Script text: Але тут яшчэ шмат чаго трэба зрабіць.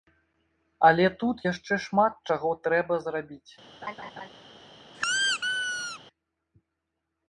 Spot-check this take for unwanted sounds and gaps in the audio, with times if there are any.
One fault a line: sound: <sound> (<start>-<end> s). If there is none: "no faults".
sound: laugh (3.8-4.3 s)
sound: squeak (4.9-6.0 s)